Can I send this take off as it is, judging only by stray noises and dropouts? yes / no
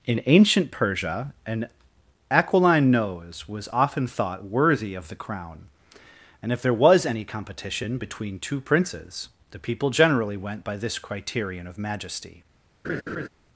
no